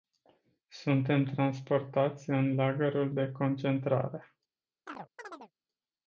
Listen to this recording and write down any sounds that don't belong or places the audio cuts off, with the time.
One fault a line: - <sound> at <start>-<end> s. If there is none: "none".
- chirp at 4.9-5.5 s